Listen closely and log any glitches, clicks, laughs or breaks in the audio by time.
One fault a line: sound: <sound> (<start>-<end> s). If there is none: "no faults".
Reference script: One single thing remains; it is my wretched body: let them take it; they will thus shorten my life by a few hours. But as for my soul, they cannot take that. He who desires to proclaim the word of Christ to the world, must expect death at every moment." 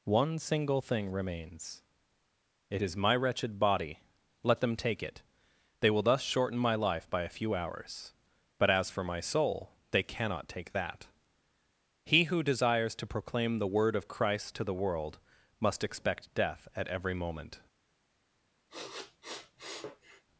sound: sniff (18.7-20.2 s)